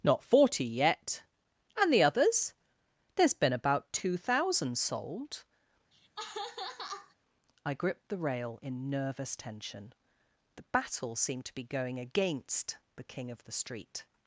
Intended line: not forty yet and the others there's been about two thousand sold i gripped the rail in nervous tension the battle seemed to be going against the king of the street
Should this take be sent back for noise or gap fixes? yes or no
yes